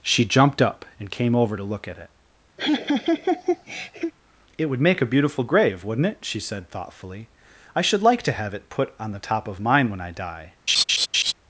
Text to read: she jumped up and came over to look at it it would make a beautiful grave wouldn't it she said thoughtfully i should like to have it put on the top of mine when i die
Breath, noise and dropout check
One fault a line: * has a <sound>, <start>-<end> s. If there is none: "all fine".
* has a laugh, 2.6-4.1 s
* has a laugh, 10.7-11.3 s